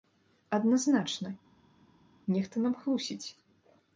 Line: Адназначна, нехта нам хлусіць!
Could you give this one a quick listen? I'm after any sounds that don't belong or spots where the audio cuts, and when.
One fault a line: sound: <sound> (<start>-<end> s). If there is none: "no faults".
no faults